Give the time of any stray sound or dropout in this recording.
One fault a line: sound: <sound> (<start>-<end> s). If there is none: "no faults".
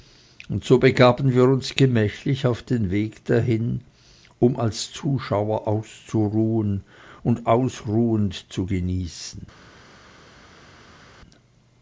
no faults